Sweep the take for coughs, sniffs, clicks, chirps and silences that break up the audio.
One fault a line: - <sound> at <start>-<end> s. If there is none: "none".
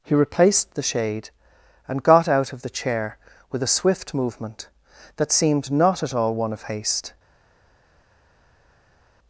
none